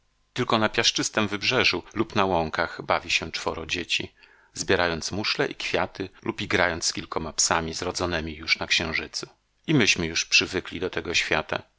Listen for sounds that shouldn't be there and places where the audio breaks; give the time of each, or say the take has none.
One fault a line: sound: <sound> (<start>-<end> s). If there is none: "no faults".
no faults